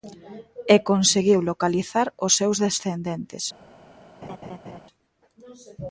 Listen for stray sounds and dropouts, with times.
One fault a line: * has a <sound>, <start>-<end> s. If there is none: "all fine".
* has a laugh, 4.2-4.8 s